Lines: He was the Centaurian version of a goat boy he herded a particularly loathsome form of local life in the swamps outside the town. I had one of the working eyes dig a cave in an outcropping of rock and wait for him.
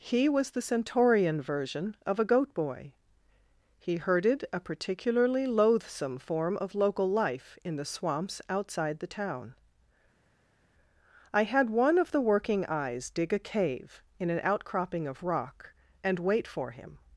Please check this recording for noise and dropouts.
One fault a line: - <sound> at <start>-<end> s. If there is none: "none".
none